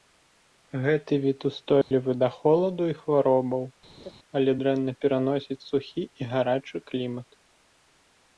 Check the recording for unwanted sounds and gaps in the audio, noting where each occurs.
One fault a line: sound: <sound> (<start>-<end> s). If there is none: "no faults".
sound: dropout (1.8-1.9 s)
sound: laugh (4.0-4.1 s)